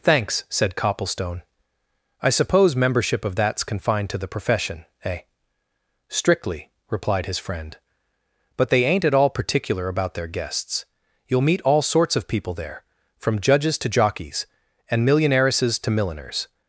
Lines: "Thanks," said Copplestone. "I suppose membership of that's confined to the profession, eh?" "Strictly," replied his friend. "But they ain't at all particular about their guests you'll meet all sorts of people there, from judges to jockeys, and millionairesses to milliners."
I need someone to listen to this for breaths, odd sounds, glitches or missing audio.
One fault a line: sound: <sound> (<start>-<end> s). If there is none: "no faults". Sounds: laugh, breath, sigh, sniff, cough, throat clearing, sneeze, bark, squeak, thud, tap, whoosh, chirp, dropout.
no faults